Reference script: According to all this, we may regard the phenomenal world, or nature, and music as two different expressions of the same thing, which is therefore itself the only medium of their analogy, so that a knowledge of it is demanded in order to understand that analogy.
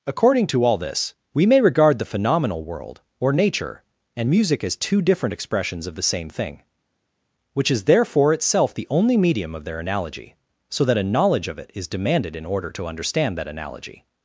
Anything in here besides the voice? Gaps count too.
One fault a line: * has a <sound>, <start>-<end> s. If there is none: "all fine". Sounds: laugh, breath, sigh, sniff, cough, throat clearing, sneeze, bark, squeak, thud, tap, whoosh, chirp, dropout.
all fine